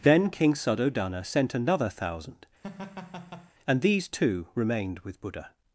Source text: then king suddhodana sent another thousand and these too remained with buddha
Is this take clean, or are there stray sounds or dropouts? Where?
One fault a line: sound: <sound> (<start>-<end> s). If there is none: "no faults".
sound: laugh (2.6-3.5 s)